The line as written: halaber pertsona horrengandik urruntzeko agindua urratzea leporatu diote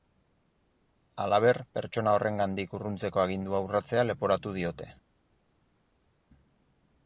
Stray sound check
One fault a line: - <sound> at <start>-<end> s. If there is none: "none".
none